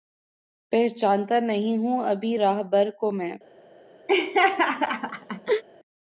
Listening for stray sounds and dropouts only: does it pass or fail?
fail